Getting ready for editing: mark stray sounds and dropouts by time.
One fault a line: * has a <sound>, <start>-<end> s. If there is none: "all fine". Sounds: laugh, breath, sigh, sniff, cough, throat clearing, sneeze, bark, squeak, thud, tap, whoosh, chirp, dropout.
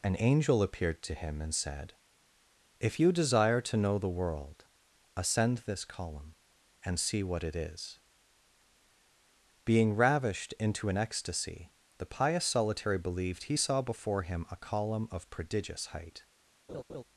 * has a laugh, 16.7-17.0 s